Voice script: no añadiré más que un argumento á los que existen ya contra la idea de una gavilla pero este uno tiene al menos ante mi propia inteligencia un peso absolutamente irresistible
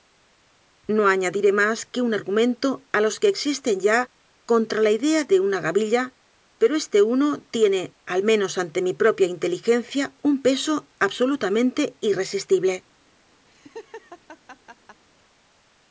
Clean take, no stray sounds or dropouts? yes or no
no